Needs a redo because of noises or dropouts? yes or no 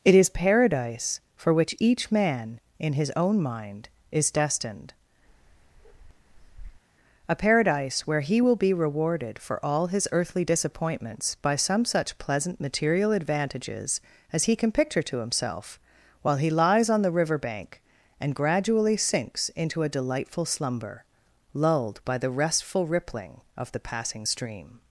yes